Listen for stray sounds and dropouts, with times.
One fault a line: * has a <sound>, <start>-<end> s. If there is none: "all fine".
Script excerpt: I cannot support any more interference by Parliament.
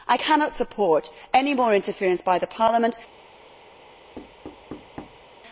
* has a thud, 4.2-5.3 s